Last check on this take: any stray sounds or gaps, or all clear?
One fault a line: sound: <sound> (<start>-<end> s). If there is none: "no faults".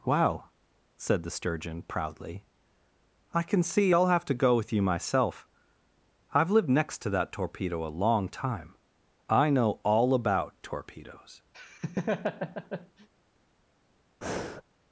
sound: laugh (11.5-13.1 s)
sound: breath (14.2-14.6 s)